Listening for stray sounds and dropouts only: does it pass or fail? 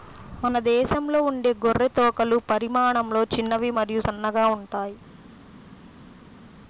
pass